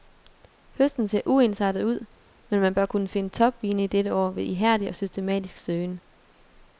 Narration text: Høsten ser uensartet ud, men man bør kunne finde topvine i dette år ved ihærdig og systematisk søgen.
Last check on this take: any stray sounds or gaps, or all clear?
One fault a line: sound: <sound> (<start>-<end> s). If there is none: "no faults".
no faults